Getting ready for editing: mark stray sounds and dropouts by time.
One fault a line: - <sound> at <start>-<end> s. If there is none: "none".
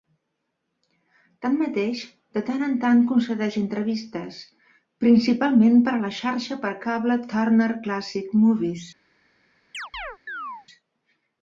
- chirp at 9.7-10.7 s